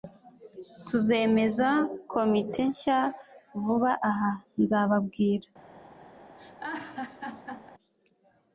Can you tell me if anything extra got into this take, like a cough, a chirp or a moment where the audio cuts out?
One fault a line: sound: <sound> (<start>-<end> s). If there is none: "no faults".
sound: laugh (6.4-7.7 s)